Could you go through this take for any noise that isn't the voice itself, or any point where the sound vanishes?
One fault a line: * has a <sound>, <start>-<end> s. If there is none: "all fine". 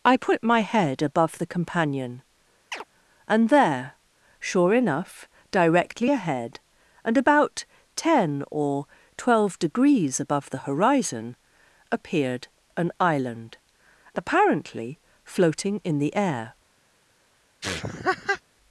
* has a chirp, 2.7-2.8 s
* has a laugh, 17.6-18.4 s